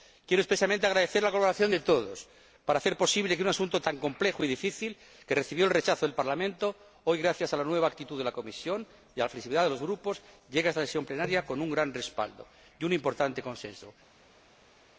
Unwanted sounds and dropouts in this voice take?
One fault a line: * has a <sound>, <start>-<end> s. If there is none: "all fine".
all fine